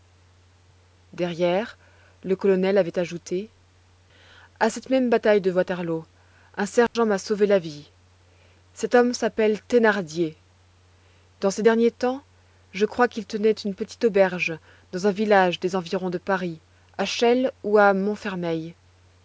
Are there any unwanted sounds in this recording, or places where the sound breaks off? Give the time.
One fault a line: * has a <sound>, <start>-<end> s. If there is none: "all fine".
* has a dropout, 6.9-7.0 s